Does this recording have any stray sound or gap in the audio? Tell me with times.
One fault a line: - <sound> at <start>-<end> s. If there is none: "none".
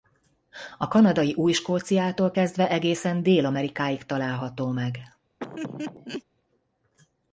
- laugh at 5.4-6.2 s